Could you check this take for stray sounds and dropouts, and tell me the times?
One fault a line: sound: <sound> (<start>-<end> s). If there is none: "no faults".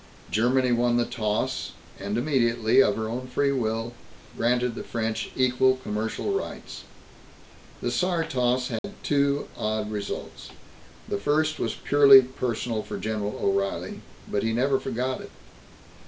sound: dropout (8.8-8.8 s)